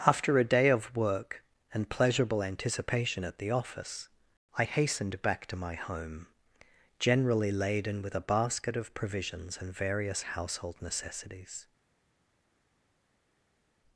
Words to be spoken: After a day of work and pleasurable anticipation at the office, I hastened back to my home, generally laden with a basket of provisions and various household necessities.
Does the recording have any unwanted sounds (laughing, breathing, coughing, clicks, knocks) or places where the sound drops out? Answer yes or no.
no